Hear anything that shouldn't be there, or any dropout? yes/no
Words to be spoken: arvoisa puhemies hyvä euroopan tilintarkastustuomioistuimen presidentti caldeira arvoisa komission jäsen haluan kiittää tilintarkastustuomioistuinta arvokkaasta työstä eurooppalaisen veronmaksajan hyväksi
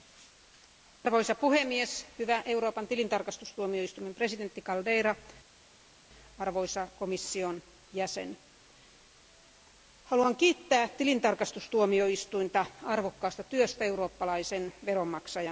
no